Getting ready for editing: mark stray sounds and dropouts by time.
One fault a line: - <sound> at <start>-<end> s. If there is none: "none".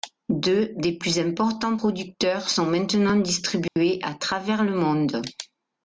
- dropout at 3.7-3.8 s